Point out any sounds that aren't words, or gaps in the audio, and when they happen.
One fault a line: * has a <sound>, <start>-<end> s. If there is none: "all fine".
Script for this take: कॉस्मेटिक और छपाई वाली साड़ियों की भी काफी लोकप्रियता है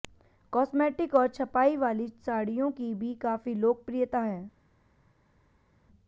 all fine